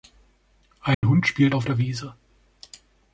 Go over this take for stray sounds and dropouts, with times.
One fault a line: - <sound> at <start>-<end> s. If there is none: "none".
- dropout at 0.9-1.0 s